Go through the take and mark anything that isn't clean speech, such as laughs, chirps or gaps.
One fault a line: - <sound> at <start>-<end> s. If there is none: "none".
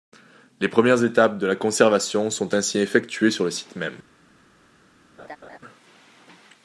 - laugh at 5.2-5.6 s